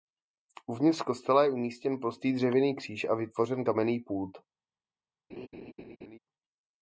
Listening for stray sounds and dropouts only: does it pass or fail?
fail